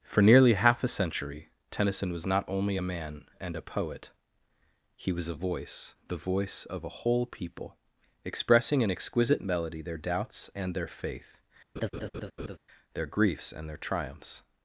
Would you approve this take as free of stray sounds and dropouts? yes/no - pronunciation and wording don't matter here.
no